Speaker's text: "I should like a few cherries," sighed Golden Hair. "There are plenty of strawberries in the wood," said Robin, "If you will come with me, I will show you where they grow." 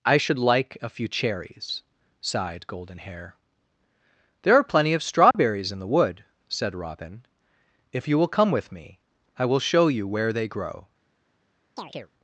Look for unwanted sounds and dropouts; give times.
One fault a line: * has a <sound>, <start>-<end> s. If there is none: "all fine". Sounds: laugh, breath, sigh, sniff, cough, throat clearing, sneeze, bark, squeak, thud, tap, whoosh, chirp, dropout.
* has a dropout, 5.3-5.3 s
* has a chirp, 11.8-12.1 s